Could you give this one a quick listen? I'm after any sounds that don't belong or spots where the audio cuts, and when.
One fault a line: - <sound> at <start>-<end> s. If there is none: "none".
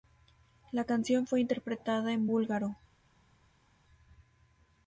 none